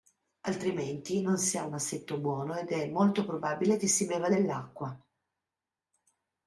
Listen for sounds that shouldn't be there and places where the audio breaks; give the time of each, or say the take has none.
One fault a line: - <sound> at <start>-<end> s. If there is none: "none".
none